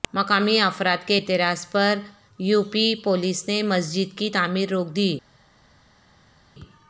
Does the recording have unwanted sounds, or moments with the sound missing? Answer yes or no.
no